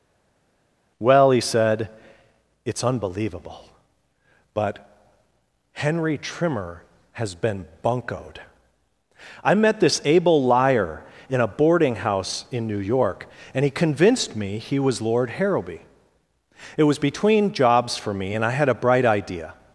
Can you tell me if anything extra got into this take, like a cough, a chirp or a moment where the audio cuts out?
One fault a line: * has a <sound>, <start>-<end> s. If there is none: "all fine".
all fine